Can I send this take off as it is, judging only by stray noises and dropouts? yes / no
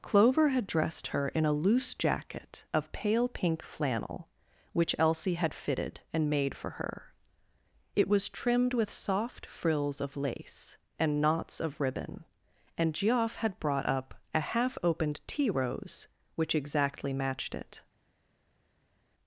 yes